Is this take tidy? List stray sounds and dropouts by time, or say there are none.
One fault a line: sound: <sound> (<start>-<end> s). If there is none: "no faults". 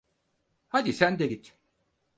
no faults